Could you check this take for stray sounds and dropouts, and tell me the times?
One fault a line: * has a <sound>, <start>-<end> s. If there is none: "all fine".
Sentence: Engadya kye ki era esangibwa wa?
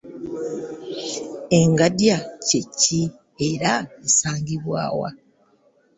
all fine